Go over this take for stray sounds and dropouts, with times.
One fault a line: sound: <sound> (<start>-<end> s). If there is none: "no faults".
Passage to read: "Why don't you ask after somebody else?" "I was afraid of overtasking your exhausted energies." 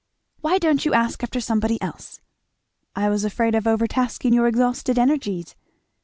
no faults